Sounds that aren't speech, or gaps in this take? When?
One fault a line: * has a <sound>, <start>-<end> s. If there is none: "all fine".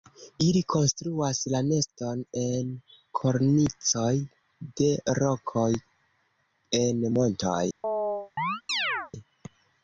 * has a chirp, 7.8-9.1 s